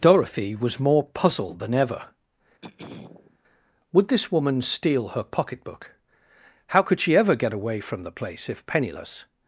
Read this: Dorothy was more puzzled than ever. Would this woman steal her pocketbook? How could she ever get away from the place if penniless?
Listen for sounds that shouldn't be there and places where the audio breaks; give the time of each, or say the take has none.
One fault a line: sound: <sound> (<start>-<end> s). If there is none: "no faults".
sound: throat clearing (2.6-3.4 s)